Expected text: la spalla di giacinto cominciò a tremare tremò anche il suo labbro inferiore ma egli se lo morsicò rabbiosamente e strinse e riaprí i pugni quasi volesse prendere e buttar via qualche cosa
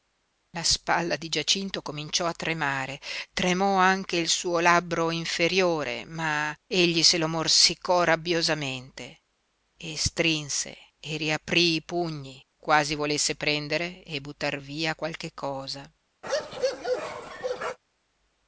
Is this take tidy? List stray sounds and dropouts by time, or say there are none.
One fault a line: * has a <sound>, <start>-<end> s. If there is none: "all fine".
* has a bark, 16.2-17.8 s